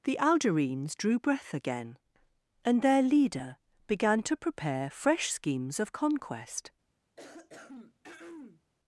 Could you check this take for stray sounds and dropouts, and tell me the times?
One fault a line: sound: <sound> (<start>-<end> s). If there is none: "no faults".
sound: throat clearing (7.2-8.6 s)